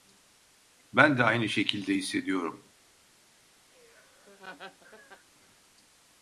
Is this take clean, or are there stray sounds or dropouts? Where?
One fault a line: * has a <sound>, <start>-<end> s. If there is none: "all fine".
* has a laugh, 3.7-5.3 s